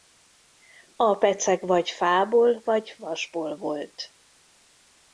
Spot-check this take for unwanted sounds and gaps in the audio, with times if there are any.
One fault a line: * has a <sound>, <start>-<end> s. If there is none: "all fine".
all fine